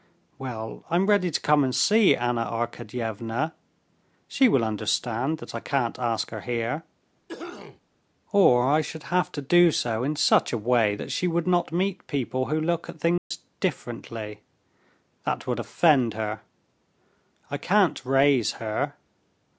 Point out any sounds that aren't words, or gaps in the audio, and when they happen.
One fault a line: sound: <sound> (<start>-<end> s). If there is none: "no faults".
sound: cough (7.3-7.8 s)
sound: dropout (13.2-13.3 s)